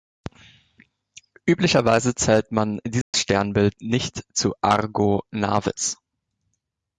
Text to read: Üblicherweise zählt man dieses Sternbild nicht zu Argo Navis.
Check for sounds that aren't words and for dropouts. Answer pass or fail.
fail